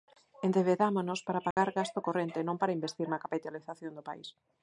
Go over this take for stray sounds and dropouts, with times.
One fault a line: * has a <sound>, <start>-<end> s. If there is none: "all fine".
* has a dropout, 1.5-1.6 s